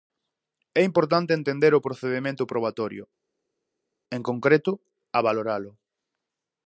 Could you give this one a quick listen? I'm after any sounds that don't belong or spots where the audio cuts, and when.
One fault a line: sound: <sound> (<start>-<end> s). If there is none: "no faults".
no faults